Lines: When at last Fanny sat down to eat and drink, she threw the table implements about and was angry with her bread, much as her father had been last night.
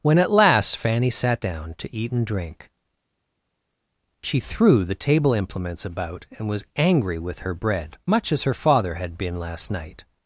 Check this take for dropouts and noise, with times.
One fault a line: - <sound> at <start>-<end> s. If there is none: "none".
none